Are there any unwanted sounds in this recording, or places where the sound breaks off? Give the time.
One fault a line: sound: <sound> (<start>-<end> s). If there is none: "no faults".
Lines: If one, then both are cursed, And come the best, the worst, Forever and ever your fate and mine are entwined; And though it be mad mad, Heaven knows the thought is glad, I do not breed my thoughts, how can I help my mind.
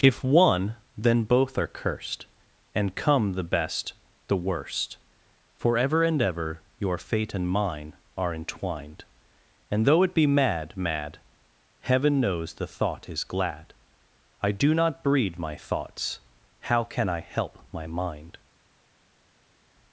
no faults